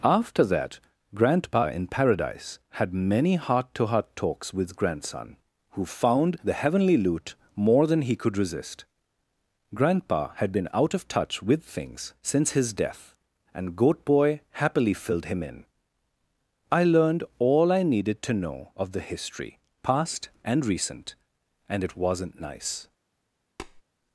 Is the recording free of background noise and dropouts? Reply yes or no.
no